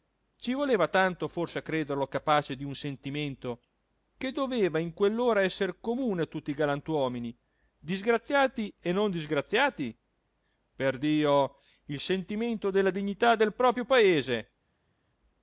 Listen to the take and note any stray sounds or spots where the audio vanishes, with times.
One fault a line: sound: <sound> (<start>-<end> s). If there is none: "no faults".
no faults